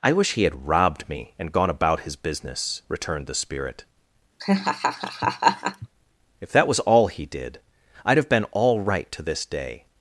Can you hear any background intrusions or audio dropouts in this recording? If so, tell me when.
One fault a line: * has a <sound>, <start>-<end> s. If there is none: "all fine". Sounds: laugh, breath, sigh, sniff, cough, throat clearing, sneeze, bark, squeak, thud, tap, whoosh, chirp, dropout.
* has a laugh, 4.4-5.9 s